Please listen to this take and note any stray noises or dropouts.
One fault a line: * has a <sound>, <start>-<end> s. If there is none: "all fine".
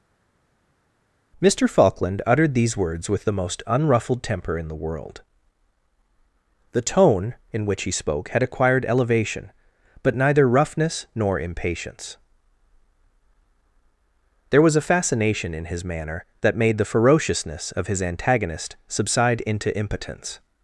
all fine